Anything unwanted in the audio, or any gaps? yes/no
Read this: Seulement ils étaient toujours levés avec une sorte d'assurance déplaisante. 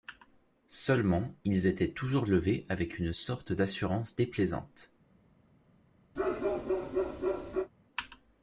yes